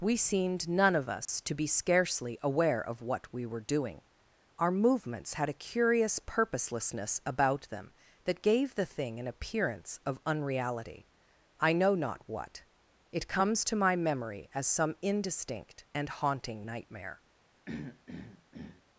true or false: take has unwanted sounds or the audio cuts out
true